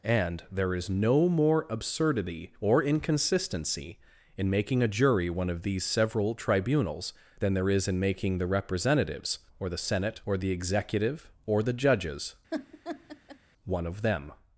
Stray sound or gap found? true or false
true